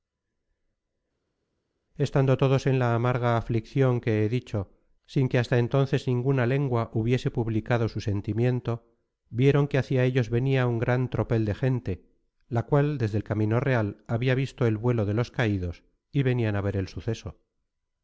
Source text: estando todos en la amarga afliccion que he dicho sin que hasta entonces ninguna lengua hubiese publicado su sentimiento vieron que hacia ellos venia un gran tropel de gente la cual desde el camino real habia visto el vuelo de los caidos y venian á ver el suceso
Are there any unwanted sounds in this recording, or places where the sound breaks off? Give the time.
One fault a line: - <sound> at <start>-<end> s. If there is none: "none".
none